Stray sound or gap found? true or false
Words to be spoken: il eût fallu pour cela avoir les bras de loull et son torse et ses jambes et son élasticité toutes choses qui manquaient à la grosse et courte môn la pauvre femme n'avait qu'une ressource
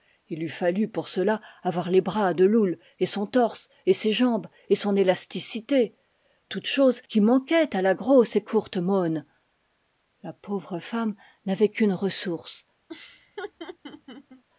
true